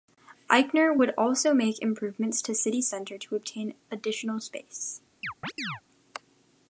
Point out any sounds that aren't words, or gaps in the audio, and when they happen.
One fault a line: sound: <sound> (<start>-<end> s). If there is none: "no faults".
sound: chirp (5.2-5.8 s)